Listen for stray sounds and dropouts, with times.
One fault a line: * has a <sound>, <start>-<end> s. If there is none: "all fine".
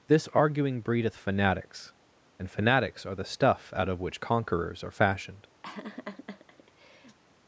* has a laugh, 5.6-7.2 s